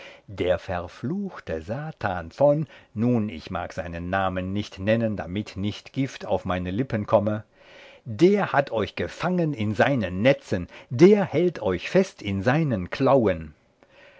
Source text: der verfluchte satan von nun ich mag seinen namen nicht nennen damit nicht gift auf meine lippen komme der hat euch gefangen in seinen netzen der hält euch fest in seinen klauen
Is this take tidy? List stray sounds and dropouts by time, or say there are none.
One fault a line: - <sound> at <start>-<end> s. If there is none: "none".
none